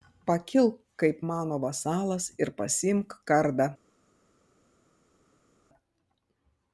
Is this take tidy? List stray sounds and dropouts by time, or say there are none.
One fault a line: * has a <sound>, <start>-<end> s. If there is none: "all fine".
all fine